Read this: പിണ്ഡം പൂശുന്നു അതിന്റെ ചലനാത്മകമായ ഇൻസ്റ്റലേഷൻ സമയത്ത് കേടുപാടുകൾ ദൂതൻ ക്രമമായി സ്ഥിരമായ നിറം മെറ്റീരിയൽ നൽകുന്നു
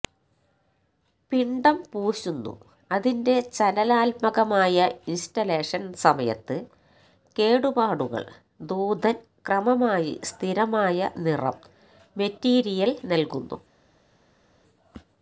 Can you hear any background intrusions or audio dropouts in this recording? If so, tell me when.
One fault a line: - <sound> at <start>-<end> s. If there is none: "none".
none